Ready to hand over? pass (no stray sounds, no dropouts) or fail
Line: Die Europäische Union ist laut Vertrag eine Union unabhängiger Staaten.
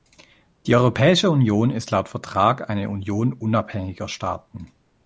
pass